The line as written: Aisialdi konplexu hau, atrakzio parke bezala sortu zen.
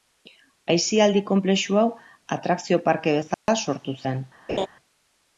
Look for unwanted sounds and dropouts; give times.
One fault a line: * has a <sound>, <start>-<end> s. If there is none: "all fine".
* has a dropout, 3.3-3.5 s
* has a laugh, 4.5-4.7 s